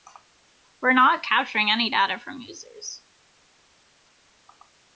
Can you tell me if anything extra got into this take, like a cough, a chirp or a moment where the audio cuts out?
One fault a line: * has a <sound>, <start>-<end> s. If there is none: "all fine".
all fine